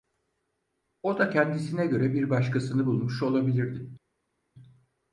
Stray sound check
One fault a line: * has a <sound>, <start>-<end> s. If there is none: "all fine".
all fine